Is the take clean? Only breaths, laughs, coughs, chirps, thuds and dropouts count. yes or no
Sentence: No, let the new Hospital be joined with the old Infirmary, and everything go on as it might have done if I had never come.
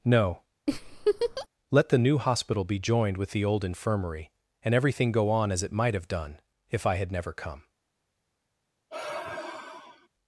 no